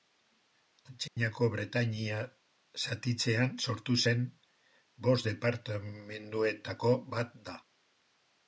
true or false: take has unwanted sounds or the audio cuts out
true